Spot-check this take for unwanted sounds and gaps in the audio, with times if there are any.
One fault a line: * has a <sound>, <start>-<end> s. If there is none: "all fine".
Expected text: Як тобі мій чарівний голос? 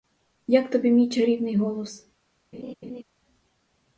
* has a laugh, 2.5-3.0 s